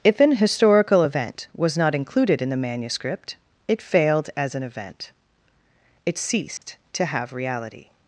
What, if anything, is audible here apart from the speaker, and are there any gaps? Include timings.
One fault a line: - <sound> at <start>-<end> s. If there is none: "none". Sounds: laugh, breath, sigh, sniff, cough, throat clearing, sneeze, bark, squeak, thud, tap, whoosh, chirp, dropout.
- dropout at 6.6-6.6 s